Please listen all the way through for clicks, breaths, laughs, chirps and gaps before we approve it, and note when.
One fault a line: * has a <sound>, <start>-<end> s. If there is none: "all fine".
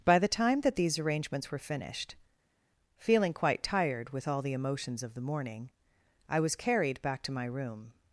all fine